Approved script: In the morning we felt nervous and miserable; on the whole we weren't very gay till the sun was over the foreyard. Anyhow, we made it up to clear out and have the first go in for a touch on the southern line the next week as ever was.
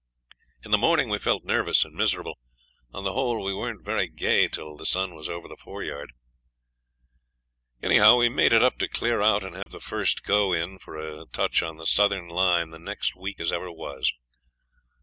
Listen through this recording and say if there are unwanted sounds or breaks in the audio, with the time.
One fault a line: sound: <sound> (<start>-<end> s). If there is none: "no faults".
sound: dropout (9.6-9.7 s)